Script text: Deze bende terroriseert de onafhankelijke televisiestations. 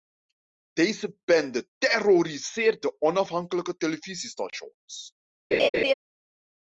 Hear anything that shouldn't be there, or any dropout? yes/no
yes